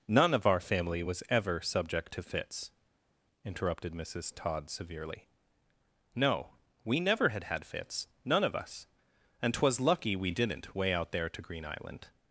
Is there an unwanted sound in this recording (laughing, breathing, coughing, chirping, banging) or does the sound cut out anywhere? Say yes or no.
no